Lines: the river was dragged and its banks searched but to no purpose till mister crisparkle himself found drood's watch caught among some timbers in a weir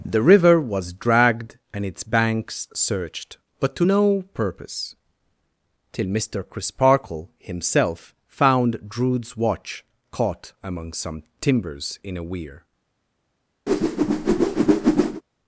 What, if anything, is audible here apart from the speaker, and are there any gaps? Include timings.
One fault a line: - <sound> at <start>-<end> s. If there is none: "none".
- whoosh at 13.7-15.2 s